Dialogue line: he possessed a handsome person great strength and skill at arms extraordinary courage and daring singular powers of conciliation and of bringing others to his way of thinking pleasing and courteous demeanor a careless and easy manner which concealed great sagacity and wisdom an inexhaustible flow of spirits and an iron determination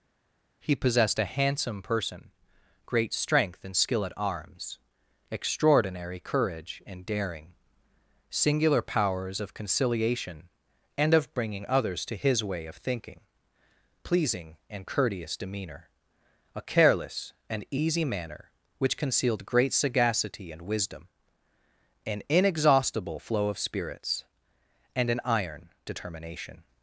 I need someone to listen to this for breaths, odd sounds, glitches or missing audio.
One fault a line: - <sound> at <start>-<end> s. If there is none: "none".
none